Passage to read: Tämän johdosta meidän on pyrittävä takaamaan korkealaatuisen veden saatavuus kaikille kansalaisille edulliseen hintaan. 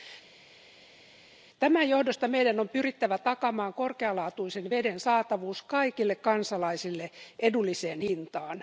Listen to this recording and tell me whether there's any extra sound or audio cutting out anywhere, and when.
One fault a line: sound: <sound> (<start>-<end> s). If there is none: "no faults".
no faults